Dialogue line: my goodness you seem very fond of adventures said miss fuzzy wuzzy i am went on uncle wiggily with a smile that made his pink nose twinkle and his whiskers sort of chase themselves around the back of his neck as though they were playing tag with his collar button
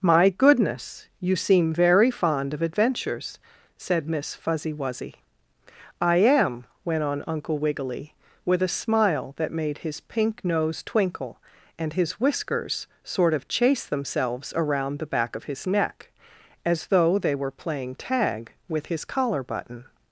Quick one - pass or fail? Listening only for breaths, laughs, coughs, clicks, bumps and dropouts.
pass